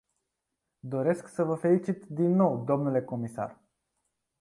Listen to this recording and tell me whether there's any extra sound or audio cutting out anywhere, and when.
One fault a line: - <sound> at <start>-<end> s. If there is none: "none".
none